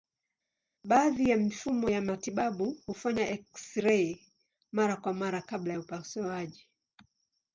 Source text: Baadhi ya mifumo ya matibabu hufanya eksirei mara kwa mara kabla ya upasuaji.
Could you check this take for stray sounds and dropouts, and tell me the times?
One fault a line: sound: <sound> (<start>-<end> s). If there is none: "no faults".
no faults